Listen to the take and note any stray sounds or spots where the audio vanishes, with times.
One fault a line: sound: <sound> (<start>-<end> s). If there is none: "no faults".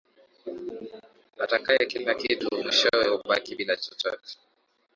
no faults